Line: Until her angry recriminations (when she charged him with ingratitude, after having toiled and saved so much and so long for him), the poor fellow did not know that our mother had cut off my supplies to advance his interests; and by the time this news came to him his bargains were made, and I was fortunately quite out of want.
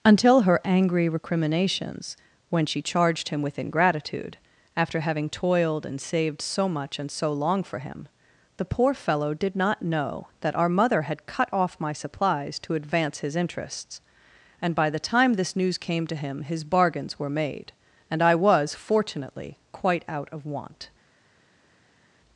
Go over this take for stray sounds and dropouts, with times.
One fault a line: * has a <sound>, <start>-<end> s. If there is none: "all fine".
all fine